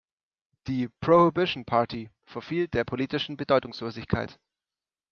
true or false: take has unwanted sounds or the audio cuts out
false